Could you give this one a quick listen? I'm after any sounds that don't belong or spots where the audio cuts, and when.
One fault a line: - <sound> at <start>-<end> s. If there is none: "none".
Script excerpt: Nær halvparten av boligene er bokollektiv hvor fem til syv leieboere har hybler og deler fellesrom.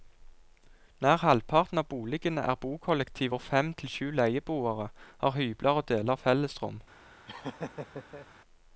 - laugh at 7.3-8.3 s